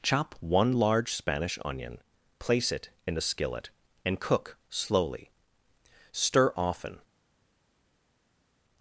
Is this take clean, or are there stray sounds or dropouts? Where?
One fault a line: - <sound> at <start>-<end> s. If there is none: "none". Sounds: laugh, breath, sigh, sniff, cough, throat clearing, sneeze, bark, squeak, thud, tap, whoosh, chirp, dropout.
none